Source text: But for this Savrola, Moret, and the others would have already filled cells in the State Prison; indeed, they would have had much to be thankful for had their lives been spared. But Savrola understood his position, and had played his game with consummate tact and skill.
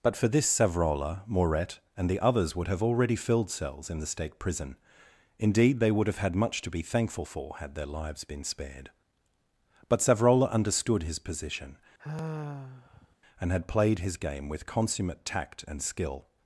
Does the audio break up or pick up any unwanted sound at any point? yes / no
yes